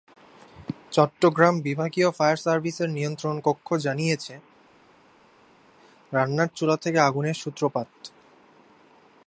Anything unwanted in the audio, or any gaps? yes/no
no